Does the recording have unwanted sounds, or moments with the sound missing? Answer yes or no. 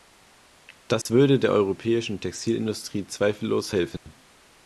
yes